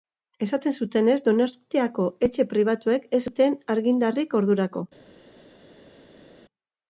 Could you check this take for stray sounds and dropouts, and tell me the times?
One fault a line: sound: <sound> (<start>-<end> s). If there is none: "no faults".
no faults